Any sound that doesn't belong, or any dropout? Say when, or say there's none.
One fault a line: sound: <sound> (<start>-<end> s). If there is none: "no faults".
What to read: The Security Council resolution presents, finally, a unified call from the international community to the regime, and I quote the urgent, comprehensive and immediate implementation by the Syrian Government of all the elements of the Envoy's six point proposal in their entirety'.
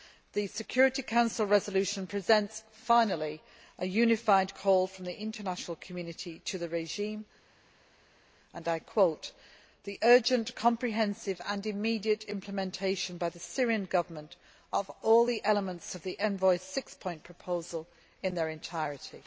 no faults